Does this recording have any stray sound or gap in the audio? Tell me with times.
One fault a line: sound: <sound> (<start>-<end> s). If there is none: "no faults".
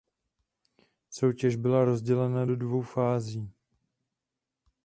no faults